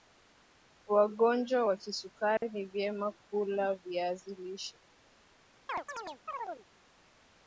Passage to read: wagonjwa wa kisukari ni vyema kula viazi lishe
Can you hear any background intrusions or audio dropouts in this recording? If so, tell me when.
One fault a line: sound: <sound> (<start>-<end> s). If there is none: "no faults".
sound: dropout (2.4-2.4 s)
sound: chirp (5.7-6.6 s)